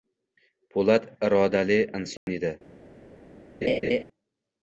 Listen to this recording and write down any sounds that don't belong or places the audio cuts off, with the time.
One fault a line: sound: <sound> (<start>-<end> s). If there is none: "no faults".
sound: dropout (2.2-2.3 s)
sound: laugh (3.6-4.0 s)